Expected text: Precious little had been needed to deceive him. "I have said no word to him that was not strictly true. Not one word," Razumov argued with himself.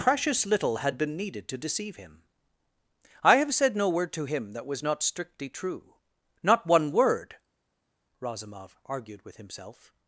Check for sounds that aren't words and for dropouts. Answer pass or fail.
pass